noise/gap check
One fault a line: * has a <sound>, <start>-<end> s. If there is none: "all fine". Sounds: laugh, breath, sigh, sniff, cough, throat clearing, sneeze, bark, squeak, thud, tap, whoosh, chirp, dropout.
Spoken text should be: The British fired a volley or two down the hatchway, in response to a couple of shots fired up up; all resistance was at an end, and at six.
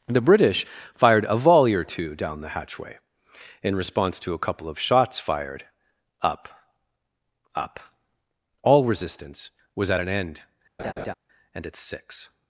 * has a laugh, 10.8-11.1 s